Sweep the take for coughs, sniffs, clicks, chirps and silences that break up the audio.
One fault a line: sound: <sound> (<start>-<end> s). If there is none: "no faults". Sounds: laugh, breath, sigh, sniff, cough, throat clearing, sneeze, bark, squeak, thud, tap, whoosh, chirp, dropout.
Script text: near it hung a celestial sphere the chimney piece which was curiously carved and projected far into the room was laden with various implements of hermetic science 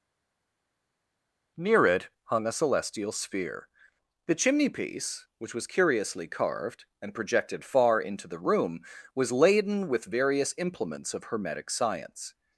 no faults